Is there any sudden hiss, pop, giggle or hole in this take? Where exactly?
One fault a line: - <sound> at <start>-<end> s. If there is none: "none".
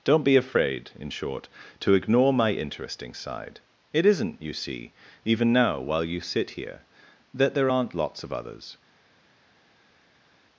none